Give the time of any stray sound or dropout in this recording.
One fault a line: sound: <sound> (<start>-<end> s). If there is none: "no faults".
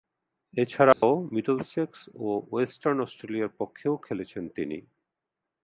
sound: dropout (0.9-1.0 s)